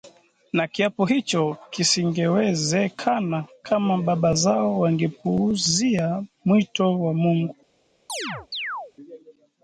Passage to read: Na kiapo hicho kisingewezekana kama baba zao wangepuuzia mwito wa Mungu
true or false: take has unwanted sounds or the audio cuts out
true